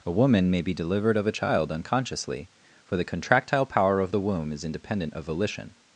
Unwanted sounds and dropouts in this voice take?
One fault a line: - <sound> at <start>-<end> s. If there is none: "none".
none